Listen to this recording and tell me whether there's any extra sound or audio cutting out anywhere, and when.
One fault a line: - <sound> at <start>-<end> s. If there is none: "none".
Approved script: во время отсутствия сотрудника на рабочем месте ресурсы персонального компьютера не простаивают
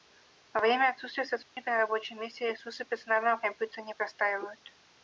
- dropout at 1.4-1.6 s